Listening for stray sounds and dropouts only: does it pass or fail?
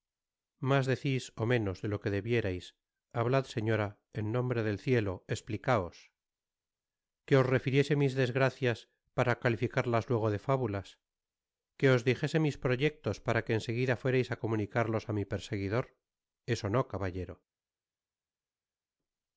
pass